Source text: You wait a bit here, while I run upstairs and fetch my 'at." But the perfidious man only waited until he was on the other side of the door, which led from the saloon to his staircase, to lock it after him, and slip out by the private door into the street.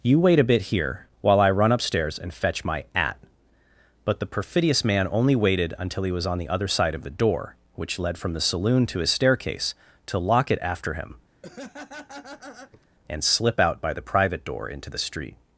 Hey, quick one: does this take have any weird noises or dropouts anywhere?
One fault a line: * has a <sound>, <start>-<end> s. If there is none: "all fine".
* has a laugh, 11.4-12.9 s